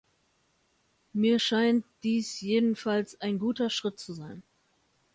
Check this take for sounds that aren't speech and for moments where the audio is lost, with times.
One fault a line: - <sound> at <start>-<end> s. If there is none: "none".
none